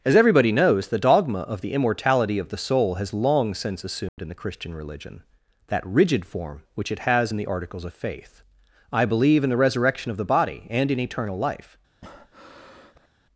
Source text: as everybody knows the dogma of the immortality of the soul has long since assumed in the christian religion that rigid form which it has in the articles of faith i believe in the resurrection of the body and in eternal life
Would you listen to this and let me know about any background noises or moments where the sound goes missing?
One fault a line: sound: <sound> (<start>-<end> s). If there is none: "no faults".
sound: dropout (4.1-4.2 s)
sound: breath (12.0-13.1 s)